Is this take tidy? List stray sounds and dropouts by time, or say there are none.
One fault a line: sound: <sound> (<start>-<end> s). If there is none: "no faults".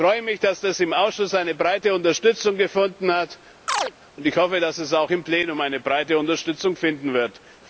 sound: chirp (3.7-3.9 s)